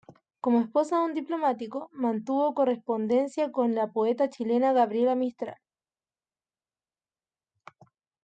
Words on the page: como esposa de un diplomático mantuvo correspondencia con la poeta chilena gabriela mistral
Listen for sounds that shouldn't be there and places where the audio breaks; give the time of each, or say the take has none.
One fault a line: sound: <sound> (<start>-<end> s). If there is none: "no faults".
no faults